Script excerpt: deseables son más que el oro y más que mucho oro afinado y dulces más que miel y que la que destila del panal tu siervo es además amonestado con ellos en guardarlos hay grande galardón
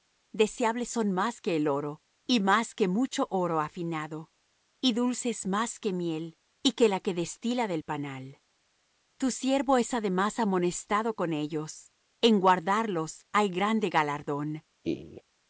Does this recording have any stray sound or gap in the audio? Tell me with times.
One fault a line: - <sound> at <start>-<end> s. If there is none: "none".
- laugh at 14.8-15.2 s